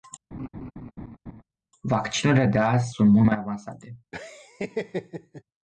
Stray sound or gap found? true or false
true